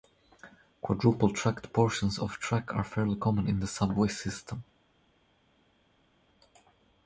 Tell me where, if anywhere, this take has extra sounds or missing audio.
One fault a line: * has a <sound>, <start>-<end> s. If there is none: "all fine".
all fine